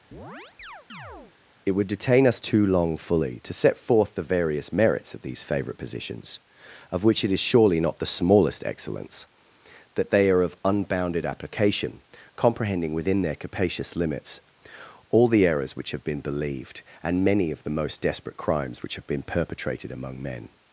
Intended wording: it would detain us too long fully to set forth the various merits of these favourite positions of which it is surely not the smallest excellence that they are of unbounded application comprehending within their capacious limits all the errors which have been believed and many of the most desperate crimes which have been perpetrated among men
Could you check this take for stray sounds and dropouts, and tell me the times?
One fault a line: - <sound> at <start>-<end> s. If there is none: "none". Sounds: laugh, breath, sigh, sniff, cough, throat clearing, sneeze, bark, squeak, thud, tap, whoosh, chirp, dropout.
- chirp at 0.1-1.4 s